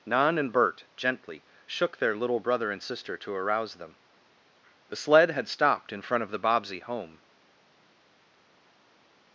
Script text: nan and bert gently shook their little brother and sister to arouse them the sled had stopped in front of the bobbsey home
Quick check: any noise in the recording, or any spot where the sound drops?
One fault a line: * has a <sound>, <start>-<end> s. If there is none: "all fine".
all fine